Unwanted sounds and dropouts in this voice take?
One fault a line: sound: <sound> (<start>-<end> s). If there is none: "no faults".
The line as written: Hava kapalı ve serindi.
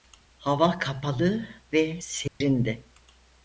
sound: dropout (2.3-2.4 s)